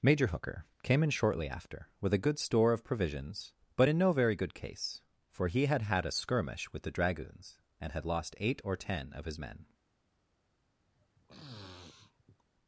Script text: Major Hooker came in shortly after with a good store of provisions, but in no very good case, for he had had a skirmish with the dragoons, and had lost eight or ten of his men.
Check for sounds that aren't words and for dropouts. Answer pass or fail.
fail